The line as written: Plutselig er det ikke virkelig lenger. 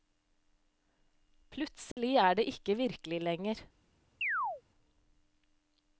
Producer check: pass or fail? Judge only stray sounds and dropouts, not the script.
fail